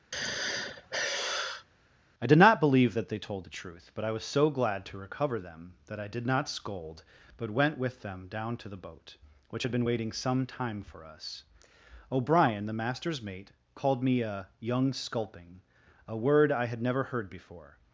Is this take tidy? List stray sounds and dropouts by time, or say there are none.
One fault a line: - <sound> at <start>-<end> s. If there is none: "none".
- sigh at 0.1-1.7 s